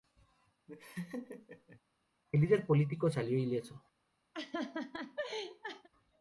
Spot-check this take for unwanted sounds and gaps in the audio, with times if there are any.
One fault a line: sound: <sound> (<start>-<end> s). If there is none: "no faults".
sound: laugh (0.7-1.8 s)
sound: laugh (4.3-5.9 s)